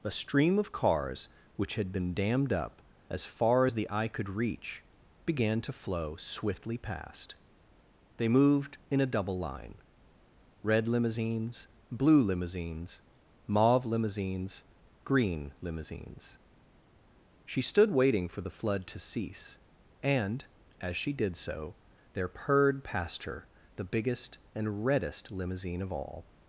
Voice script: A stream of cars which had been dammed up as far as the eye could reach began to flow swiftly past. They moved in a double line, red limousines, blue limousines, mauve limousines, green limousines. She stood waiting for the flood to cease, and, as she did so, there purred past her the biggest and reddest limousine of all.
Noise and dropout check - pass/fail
pass